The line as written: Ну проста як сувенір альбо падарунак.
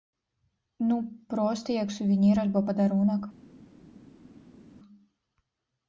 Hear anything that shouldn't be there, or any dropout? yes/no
no